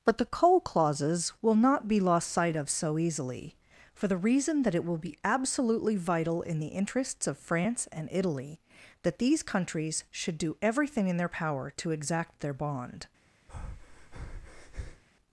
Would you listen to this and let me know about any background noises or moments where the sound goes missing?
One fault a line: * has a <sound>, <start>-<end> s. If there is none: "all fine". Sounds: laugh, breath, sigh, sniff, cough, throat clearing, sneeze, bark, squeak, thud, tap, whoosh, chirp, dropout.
* has a breath, 13.5-15.0 s